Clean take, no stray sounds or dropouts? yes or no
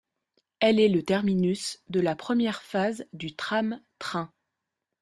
yes